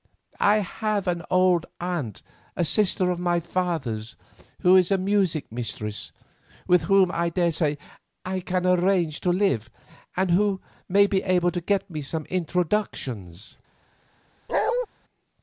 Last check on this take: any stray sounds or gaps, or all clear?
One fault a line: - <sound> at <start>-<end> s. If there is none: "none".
- bark at 14.5-14.9 s